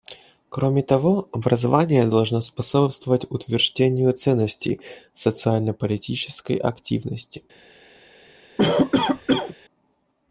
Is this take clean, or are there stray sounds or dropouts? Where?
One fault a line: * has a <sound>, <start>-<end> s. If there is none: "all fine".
* has a cough, 8.6-9.6 s